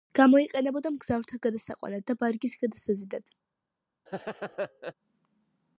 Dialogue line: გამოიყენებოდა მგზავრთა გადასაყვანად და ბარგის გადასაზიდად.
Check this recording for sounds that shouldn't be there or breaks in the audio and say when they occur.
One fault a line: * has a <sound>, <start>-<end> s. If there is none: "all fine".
* has a laugh, 4.1-4.9 s